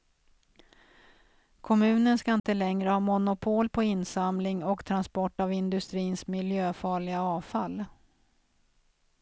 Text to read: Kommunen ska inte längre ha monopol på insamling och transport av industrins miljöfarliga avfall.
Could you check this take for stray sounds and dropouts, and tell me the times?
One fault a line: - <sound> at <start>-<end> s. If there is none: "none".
- dropout at 2.4-2.4 s